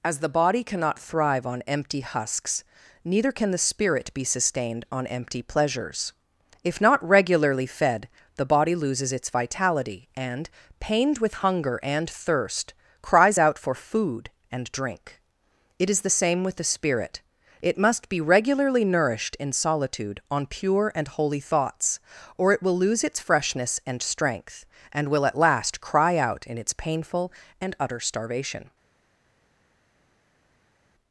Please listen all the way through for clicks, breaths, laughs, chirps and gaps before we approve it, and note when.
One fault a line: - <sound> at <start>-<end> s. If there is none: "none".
none